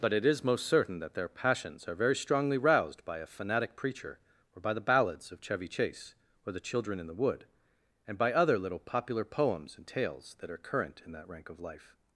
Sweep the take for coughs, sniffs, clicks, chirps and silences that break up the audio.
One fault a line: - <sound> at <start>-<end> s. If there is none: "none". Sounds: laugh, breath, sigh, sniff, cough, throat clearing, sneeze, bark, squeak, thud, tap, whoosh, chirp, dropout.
none